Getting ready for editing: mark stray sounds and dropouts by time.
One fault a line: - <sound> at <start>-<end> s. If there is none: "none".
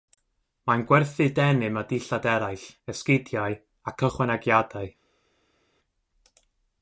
none